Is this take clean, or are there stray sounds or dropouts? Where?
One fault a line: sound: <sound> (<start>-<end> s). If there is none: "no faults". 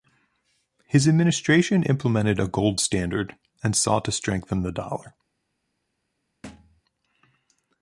sound: thud (6.4-6.8 s)